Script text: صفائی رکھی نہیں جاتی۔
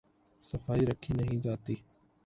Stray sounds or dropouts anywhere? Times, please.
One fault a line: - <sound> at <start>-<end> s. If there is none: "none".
none